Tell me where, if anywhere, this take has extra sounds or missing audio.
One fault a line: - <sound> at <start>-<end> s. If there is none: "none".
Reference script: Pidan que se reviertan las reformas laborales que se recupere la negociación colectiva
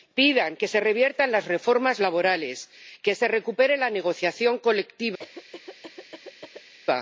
- cough at 5.2-6.7 s